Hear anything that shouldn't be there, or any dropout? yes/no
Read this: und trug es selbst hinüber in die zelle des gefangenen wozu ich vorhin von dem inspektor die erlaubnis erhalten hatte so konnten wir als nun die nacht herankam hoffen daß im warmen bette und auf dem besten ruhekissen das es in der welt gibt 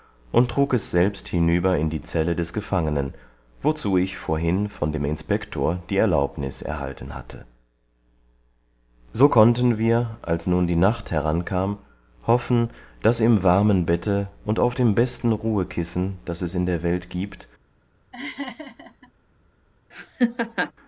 yes